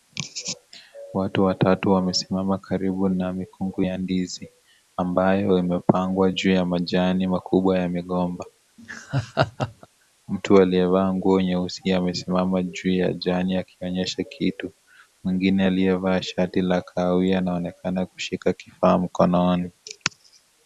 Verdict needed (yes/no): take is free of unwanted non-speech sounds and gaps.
no